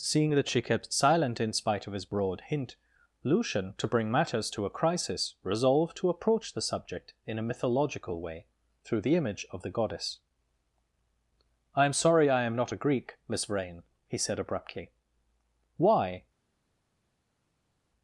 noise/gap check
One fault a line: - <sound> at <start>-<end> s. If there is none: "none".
none